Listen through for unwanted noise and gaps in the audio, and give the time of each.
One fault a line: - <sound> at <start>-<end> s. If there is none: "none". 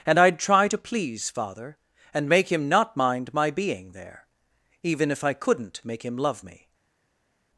none